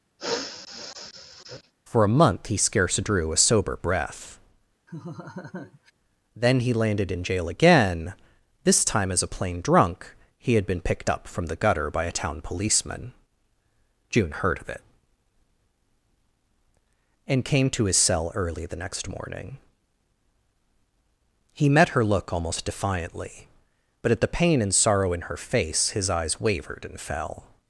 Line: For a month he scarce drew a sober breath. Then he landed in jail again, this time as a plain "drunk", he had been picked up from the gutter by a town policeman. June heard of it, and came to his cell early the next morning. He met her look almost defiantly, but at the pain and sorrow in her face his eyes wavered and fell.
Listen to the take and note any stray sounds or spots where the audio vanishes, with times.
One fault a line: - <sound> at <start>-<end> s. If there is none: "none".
- sniff at 0.2-1.7 s
- laugh at 4.9-5.9 s